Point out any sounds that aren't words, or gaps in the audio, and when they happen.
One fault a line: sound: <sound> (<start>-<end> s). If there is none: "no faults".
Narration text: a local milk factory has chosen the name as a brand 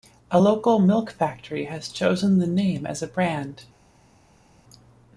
no faults